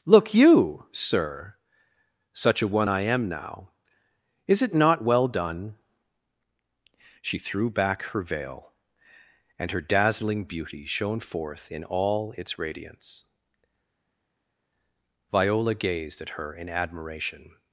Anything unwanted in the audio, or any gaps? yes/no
no